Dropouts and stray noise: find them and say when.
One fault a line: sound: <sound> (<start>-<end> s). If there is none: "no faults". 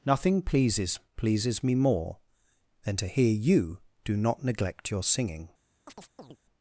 sound: chirp (5.9-6.4 s)